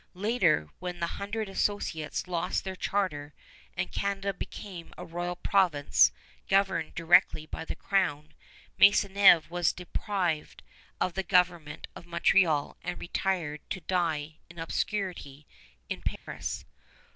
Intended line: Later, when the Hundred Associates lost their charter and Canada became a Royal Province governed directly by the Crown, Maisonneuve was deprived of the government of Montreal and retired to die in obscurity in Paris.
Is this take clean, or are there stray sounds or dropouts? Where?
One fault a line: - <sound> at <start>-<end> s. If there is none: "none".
- dropout at 16.2-16.3 s